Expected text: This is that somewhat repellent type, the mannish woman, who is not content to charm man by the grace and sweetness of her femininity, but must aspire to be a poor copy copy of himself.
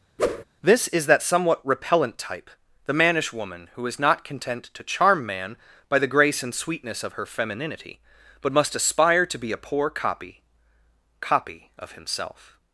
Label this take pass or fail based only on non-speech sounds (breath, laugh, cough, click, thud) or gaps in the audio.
fail